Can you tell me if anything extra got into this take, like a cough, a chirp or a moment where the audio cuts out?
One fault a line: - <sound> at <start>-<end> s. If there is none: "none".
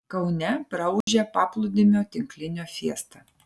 - dropout at 1.0-1.1 s